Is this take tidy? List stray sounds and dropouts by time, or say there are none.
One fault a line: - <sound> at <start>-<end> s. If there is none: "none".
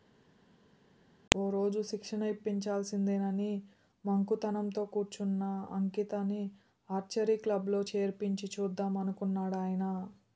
none